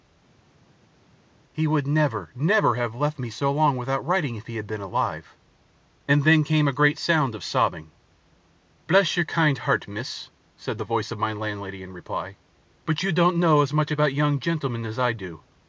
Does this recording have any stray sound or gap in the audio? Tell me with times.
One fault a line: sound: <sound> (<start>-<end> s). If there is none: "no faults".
no faults